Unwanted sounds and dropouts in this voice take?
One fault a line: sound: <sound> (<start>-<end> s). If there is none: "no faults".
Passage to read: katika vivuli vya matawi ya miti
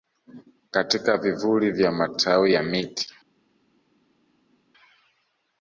no faults